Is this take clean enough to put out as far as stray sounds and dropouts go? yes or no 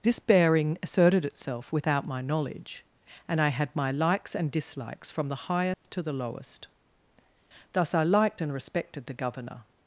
no